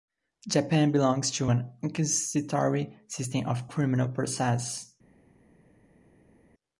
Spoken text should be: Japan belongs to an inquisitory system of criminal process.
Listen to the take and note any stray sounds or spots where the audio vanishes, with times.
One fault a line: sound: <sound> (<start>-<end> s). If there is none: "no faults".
no faults